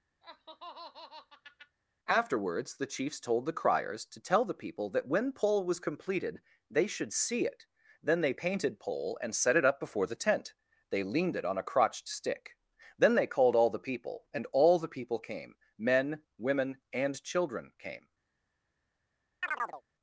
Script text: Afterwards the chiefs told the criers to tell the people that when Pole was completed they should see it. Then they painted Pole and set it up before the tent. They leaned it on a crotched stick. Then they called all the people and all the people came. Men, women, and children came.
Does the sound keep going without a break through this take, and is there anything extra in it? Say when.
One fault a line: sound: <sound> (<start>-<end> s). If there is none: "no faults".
sound: laugh (0.2-1.8 s)
sound: chirp (19.4-19.8 s)